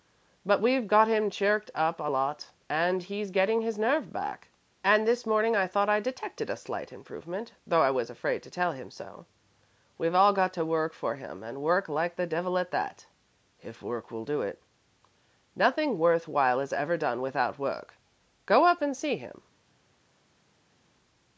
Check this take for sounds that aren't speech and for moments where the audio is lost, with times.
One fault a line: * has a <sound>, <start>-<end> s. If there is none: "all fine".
all fine